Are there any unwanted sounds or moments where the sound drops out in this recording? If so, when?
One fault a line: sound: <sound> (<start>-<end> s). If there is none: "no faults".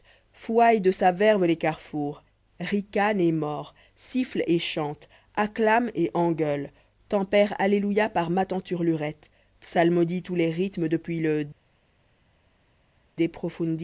no faults